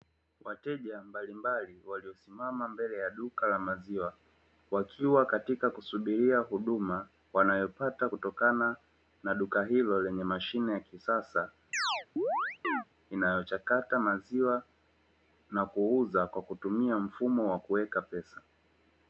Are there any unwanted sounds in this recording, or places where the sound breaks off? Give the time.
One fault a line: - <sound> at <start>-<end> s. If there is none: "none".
- chirp at 11.7-12.8 s